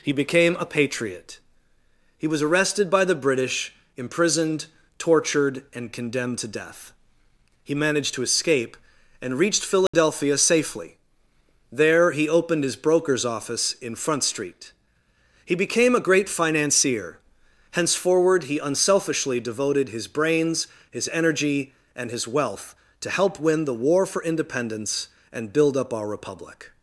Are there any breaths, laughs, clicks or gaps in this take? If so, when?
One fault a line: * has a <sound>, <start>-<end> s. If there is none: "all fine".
* has a dropout, 9.9-9.9 s